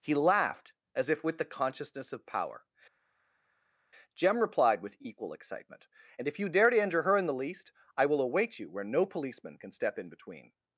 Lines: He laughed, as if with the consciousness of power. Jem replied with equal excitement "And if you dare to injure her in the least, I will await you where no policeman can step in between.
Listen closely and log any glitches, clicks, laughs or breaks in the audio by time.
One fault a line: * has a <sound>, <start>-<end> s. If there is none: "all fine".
all fine